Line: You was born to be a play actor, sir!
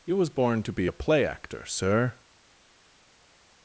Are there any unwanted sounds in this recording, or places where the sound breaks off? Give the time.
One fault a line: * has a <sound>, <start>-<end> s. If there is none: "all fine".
all fine